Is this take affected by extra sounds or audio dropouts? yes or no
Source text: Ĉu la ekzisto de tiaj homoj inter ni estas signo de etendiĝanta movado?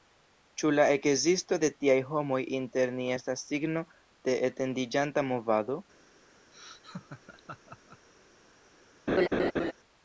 yes